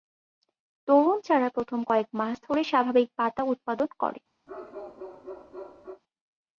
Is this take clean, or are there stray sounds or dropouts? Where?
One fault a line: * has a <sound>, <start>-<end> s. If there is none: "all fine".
* has a bark, 4.5-6.0 s